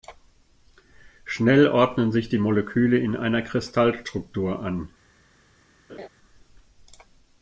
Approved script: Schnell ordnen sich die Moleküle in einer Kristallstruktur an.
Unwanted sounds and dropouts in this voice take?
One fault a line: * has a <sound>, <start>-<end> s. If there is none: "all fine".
* has a laugh, 5.9-6.1 s